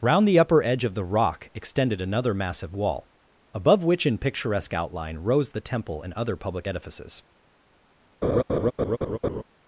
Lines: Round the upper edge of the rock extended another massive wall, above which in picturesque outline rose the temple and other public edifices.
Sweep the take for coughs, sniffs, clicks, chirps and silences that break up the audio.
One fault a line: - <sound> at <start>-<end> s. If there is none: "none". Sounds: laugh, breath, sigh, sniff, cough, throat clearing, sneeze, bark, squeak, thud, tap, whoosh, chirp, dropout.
- laugh at 8.2-9.4 s